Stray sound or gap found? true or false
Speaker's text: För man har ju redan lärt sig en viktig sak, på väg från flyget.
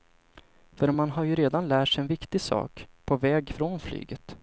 false